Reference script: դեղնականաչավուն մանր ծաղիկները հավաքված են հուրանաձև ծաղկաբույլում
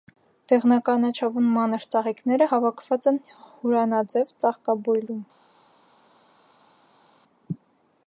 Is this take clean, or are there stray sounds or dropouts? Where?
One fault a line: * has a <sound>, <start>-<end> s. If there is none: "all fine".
all fine